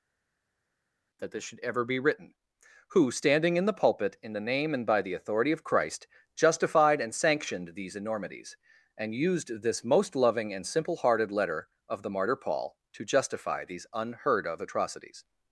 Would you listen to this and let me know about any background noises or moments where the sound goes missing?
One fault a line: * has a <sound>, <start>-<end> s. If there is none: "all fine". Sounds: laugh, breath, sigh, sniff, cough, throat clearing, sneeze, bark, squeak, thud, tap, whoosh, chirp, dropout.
all fine